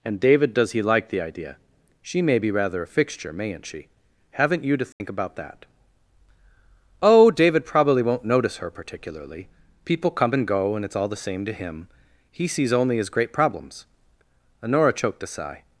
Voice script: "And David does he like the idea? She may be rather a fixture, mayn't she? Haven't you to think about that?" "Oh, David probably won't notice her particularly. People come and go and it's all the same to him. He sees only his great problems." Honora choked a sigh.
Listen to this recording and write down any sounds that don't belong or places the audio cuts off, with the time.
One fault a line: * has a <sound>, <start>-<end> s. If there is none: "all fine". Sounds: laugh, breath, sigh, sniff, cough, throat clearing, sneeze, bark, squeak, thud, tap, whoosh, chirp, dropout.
* has a dropout, 4.9-5.0 s